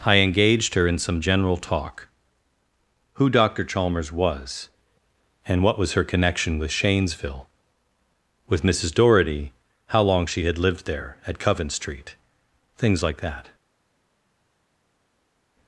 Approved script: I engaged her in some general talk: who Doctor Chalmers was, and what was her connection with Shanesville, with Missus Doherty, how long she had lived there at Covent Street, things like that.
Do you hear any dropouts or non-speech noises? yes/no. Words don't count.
no